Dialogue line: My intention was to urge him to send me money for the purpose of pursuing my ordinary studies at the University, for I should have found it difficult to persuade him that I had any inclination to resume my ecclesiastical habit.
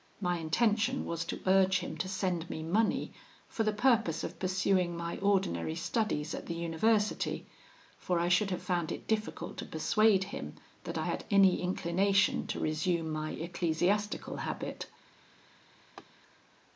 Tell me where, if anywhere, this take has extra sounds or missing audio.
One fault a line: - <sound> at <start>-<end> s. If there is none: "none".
- laugh at 16.0-16.0 s